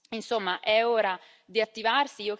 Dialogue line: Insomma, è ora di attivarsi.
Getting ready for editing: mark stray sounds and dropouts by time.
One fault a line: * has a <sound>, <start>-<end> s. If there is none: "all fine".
all fine